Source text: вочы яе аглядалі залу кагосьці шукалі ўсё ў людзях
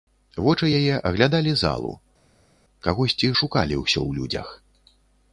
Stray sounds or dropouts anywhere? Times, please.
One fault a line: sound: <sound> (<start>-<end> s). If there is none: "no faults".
no faults